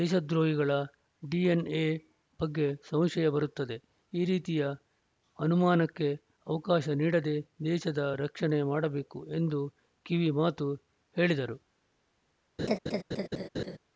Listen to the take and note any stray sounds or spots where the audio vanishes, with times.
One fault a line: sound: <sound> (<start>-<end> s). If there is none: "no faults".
sound: laugh (12.6-13.8 s)